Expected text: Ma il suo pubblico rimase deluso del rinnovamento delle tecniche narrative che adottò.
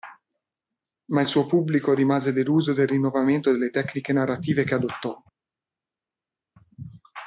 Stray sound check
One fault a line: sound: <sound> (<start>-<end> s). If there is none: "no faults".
no faults